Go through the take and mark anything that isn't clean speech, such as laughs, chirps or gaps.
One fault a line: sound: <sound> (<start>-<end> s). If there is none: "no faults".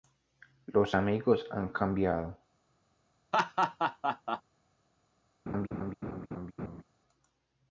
sound: laugh (3.3-4.4 s)
sound: laugh (5.5-6.8 s)